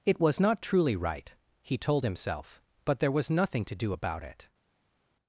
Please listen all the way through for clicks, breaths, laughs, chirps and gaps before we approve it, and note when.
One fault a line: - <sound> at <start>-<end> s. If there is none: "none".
none